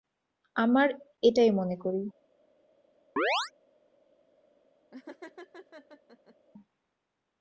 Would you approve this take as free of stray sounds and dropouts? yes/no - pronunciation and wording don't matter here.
no